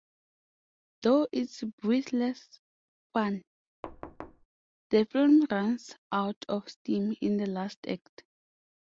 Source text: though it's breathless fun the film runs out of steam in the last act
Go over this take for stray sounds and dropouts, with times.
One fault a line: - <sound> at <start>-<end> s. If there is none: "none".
- thud at 3.8-4.5 s